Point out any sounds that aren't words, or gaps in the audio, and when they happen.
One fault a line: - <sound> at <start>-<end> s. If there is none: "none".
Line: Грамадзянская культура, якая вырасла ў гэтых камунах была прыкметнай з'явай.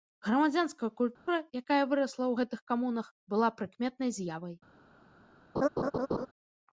- dropout at 1.2-1.3 s
- laugh at 5.6-6.3 s